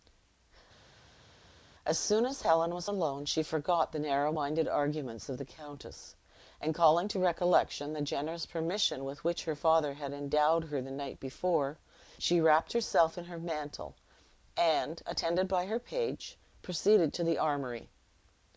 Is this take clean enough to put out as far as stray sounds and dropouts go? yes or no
yes